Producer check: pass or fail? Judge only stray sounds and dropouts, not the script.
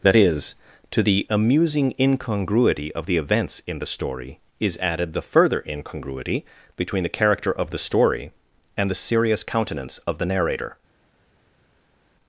pass